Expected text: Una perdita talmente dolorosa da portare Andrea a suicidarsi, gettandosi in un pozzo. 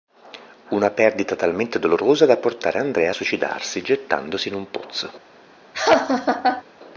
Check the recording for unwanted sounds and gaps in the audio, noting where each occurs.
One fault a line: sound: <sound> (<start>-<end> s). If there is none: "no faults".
sound: laugh (5.7-6.6 s)